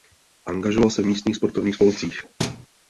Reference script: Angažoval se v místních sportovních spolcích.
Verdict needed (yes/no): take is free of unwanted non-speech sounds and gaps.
no